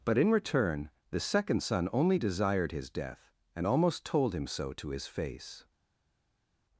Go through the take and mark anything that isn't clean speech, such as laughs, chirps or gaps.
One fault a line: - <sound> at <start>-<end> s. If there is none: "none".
none